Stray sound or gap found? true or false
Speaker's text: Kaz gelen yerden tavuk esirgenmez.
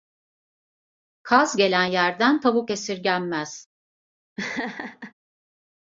true